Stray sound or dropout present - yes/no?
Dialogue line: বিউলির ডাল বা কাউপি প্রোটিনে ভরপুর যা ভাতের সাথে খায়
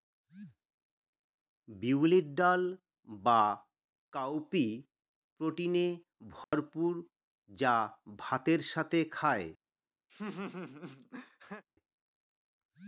yes